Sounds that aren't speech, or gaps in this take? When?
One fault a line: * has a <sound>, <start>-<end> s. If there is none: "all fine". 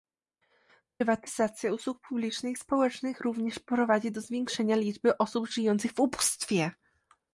all fine